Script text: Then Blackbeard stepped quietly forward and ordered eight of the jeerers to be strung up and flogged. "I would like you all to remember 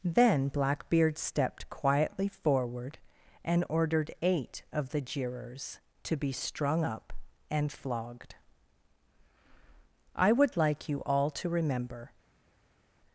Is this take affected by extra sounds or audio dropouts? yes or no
no